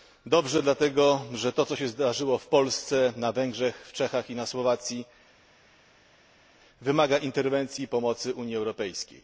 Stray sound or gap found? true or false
false